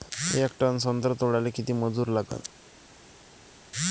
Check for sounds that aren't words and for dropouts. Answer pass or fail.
pass